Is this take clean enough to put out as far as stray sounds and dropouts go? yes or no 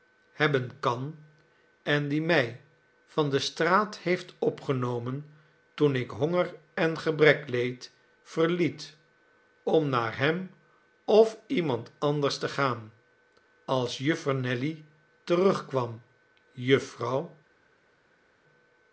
yes